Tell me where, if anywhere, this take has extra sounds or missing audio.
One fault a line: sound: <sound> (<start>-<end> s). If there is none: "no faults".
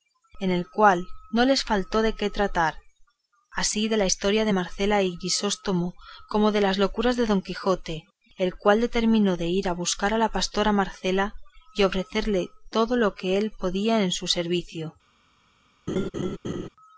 sound: laugh (15.9-16.7 s)